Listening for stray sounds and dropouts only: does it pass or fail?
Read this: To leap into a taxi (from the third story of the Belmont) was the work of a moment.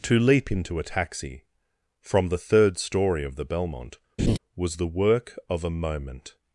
fail